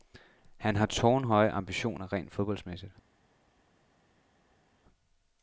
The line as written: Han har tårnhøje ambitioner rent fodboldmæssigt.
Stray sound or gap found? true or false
false